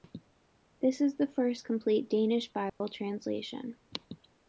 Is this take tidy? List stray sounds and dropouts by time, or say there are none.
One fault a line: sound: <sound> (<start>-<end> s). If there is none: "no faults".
sound: dropout (2.7-2.8 s)